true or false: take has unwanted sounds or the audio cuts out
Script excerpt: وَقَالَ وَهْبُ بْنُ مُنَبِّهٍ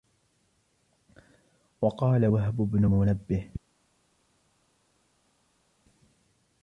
false